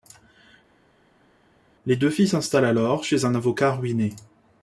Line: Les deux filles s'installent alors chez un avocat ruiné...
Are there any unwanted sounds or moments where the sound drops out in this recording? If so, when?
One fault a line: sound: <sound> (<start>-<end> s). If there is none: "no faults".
no faults